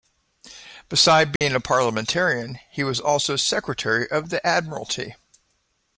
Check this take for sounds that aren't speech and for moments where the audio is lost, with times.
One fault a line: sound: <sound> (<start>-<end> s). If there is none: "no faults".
sound: dropout (1.4-1.4 s)